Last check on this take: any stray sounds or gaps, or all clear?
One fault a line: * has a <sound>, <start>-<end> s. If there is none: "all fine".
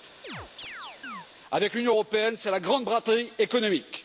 * has a chirp, 0.2-1.3 s